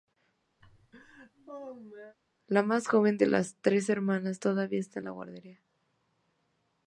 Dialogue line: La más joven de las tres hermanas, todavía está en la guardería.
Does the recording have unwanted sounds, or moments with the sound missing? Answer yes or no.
yes